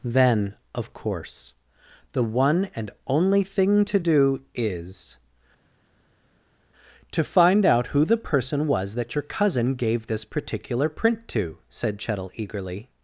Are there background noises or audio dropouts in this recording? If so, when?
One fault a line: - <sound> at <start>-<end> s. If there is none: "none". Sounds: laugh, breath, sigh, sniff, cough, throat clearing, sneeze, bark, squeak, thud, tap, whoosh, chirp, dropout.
none